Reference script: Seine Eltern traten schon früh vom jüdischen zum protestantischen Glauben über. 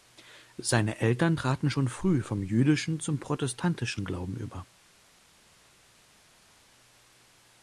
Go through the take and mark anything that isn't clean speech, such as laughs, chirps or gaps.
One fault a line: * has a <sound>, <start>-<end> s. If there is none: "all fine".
all fine